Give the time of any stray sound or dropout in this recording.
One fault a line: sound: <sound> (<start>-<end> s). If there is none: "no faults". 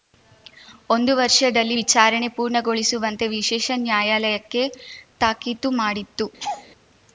sound: laugh (6.4-6.7 s)